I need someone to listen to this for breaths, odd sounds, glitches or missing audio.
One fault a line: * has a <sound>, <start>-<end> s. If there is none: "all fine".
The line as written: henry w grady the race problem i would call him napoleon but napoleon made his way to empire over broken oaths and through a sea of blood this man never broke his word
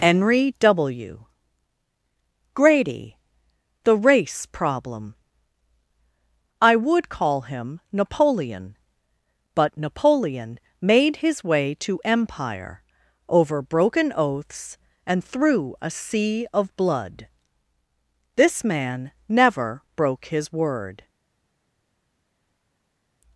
all fine